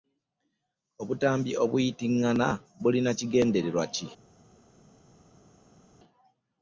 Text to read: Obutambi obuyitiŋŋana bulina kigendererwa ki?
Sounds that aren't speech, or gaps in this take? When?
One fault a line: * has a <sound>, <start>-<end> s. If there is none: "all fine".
all fine